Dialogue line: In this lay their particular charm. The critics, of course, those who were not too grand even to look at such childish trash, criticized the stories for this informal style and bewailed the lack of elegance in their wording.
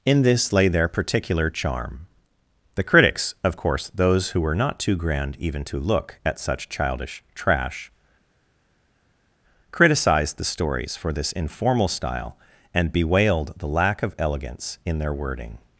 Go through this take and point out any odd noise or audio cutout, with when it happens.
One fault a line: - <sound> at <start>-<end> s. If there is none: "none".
none